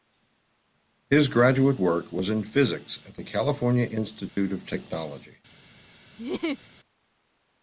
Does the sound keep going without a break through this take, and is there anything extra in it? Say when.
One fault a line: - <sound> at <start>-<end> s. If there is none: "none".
- dropout at 4.3-4.4 s
- laugh at 6.2-6.7 s